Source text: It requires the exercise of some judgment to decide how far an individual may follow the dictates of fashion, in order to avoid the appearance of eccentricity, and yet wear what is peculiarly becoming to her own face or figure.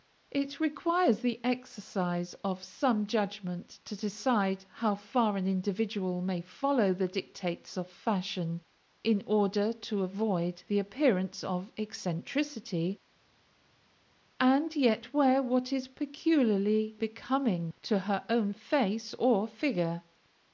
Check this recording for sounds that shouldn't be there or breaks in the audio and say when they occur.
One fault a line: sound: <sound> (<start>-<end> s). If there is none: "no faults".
no faults